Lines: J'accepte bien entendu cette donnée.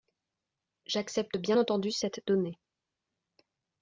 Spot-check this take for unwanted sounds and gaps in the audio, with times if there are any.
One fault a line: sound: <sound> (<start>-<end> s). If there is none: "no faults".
no faults